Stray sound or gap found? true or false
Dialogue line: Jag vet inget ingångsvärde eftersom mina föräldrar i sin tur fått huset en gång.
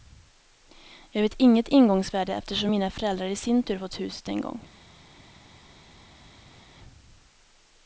false